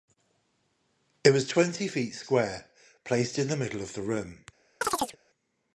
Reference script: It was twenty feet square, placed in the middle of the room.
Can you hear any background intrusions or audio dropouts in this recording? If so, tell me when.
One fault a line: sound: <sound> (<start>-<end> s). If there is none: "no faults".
sound: chirp (4.8-5.2 s)